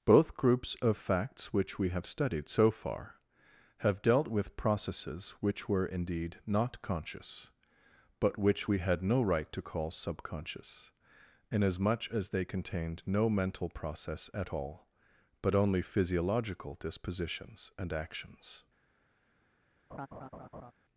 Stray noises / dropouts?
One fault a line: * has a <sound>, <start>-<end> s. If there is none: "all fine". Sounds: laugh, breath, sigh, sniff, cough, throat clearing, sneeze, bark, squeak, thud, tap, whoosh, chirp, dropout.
* has a laugh, 19.9-20.7 s